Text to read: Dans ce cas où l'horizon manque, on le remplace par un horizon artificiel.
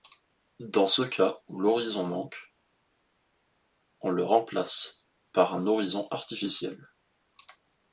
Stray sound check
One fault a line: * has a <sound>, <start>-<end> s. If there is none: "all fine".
all fine